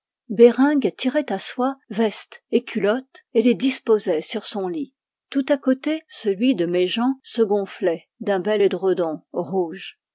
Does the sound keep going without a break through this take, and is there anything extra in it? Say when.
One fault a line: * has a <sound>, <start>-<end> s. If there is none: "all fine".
all fine